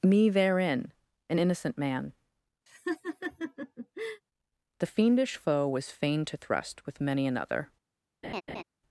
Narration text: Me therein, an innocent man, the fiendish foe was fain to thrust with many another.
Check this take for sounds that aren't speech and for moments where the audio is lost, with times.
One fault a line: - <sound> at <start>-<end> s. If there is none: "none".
- laugh at 2.7-4.2 s
- laugh at 8.2-8.6 s